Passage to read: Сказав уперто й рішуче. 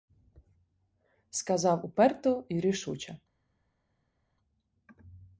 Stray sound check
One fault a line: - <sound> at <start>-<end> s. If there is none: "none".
none